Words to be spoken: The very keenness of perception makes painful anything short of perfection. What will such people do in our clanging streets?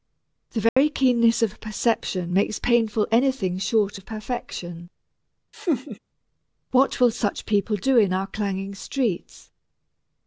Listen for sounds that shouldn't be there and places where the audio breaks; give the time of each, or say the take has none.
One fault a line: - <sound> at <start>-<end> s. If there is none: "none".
- dropout at 0.7-0.8 s
- laugh at 5.5-6.0 s